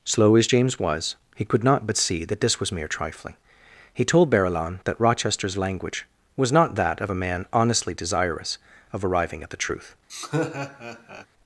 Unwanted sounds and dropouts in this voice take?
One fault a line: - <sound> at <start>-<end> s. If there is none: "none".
- laugh at 10.1-11.3 s